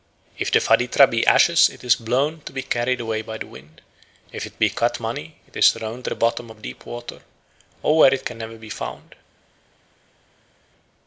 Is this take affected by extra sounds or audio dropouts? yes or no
no